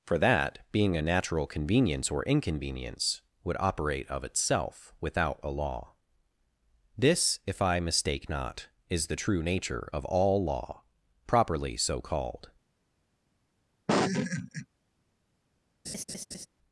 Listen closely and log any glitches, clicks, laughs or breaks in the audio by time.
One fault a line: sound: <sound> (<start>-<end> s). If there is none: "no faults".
sound: laugh (13.9-14.7 s)
sound: laugh (15.8-16.5 s)